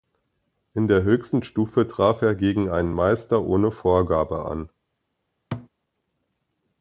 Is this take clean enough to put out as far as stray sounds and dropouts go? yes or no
no